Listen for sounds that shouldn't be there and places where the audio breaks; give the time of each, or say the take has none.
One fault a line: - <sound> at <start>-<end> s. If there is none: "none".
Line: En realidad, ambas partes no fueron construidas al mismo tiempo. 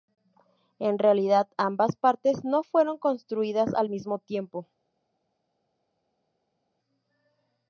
none